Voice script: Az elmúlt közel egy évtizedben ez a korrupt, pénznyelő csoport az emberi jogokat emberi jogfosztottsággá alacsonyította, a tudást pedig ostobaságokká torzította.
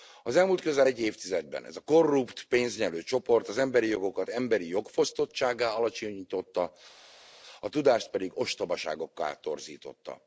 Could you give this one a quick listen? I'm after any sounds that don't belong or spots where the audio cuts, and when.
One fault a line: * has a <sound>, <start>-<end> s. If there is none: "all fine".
all fine